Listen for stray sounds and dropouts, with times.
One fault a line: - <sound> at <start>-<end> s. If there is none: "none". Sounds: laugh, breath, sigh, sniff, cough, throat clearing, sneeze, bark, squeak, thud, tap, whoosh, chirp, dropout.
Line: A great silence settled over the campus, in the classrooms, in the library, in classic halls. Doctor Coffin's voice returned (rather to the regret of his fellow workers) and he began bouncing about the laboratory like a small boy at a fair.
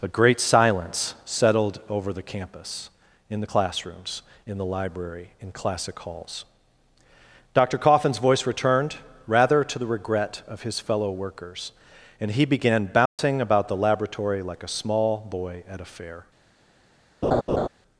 - dropout at 13.1-13.2 s
- laugh at 17.2-17.7 s